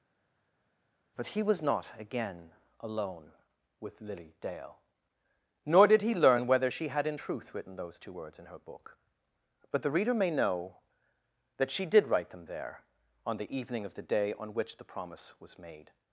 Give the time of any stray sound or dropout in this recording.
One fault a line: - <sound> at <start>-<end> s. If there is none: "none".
none